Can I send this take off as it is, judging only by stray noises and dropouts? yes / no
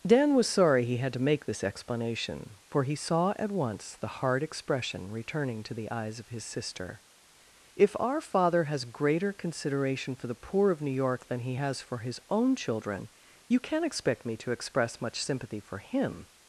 yes